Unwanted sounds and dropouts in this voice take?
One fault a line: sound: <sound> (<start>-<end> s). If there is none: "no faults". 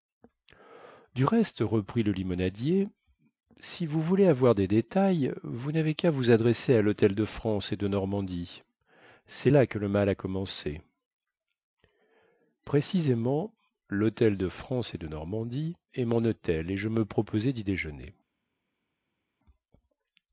no faults